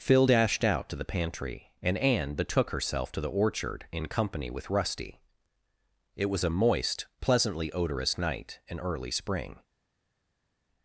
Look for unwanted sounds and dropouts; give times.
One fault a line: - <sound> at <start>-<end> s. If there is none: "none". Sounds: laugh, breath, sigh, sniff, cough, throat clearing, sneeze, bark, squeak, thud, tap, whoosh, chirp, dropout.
none